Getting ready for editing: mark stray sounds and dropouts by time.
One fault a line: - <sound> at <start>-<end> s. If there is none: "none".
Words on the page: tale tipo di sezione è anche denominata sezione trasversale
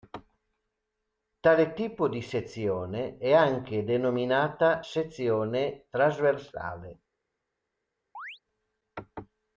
- chirp at 8.1-8.4 s